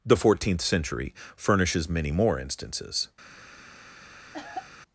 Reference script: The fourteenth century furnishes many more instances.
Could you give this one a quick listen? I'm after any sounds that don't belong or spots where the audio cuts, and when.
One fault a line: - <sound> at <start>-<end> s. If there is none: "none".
- cough at 4.3-4.7 s